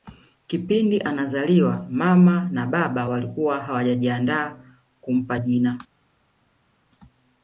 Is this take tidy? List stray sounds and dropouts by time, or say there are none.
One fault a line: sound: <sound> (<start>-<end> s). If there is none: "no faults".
no faults